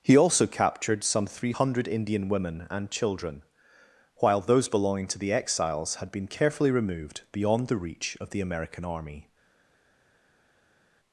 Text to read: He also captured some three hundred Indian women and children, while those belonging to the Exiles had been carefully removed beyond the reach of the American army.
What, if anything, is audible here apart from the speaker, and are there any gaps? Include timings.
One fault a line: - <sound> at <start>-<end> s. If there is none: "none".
none